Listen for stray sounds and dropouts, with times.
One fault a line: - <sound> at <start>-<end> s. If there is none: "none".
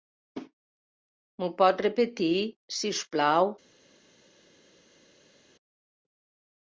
none